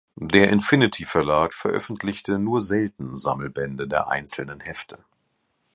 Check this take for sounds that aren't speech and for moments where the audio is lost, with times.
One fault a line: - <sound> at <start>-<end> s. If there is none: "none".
none